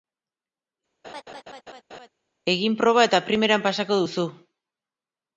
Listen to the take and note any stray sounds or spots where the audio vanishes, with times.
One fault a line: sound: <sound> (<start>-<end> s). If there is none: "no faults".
sound: laugh (1.0-2.1 s)